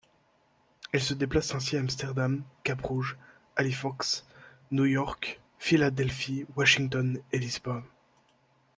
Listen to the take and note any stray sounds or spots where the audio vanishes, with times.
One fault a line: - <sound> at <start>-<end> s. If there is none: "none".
none